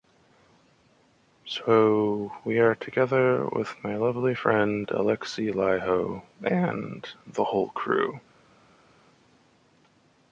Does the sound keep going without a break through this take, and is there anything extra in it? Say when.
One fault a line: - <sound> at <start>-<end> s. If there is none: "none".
none